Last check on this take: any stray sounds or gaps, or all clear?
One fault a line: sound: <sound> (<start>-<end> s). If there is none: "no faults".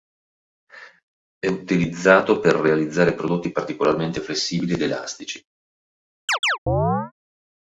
sound: chirp (6.3-7.1 s)